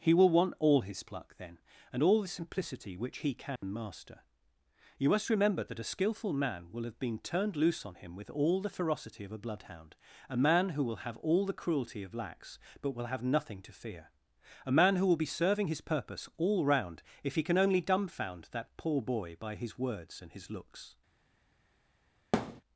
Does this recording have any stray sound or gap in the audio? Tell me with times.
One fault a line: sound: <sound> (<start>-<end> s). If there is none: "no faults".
sound: dropout (3.6-3.6 s)
sound: thud (22.3-22.6 s)